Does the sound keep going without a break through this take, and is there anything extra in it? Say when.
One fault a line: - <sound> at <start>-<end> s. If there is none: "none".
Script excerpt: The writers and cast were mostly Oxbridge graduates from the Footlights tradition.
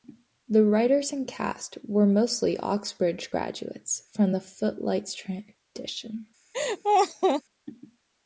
- laugh at 6.5-7.4 s